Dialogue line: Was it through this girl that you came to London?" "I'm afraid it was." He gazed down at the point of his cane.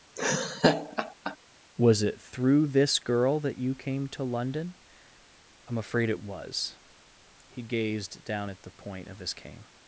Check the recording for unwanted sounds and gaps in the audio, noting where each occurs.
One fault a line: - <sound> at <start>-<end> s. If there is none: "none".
- laugh at 0.2-1.4 s